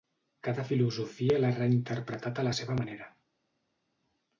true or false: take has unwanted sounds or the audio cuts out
false